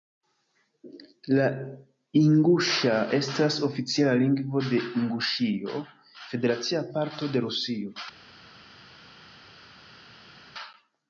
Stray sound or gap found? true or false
false